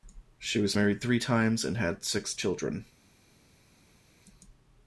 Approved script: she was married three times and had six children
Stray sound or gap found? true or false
false